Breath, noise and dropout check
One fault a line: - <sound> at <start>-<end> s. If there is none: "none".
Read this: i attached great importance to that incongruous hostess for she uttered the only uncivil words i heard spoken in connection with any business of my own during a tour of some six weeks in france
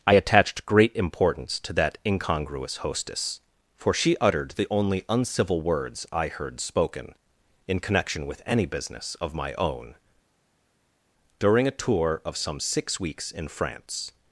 none